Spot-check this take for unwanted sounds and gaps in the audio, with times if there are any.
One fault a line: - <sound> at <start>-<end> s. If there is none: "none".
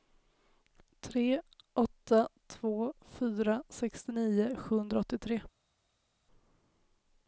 none